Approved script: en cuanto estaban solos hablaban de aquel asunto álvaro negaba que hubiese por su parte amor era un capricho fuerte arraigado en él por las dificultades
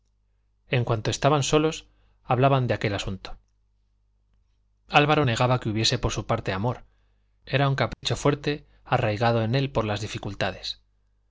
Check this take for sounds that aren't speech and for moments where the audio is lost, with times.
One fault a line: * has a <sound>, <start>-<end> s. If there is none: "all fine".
* has a dropout, 7.9-8.0 s